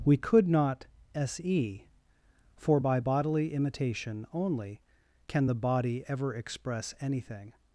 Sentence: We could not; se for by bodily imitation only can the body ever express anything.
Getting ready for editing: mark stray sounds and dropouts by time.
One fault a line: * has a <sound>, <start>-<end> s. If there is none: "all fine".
all fine